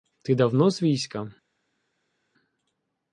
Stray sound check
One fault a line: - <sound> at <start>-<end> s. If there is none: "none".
none